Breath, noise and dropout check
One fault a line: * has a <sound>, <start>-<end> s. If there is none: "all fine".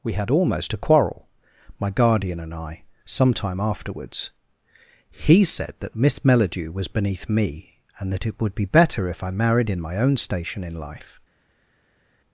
all fine